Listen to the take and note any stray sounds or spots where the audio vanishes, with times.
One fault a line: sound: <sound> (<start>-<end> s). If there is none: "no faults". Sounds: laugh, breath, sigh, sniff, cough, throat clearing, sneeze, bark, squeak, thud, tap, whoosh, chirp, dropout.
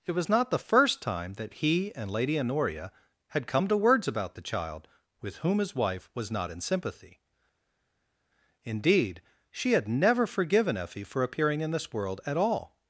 no faults